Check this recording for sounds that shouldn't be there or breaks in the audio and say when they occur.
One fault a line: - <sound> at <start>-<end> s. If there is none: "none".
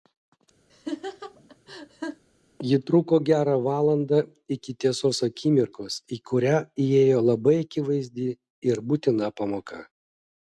- laugh at 0.7-2.2 s